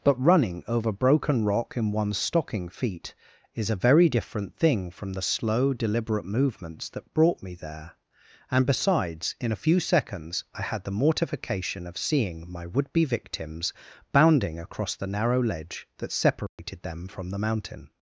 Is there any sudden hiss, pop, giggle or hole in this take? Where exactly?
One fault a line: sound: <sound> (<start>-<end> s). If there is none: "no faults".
sound: dropout (16.5-16.6 s)